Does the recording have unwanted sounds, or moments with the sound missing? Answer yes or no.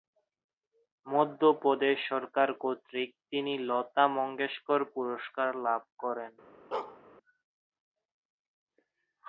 yes